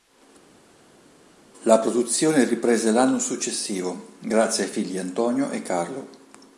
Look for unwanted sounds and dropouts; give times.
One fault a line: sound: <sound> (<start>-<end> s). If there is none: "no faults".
no faults